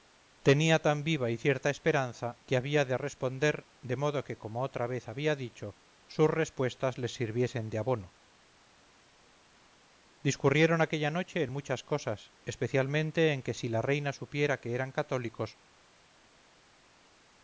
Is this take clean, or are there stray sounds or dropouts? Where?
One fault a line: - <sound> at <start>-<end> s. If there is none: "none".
none